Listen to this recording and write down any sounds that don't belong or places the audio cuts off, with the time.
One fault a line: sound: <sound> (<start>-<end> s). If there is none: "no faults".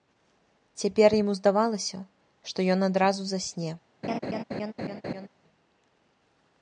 sound: laugh (4.0-5.3 s)